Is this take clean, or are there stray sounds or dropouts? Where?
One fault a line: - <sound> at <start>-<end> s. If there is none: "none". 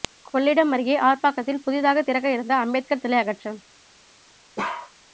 - bark at 4.6-4.9 s